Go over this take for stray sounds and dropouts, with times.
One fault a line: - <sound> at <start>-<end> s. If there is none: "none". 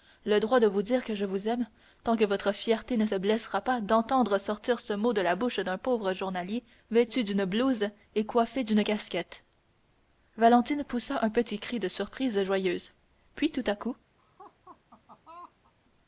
- laugh at 14.2-15.7 s